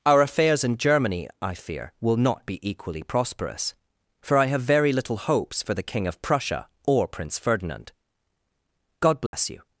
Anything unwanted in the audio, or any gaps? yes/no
yes